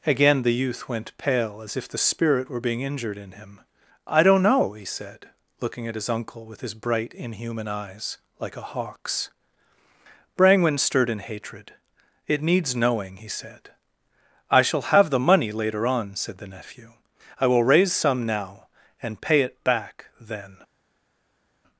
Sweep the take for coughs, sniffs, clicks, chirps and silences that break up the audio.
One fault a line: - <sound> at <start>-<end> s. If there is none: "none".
none